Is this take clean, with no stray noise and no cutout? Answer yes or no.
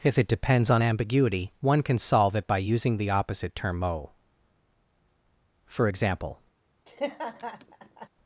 no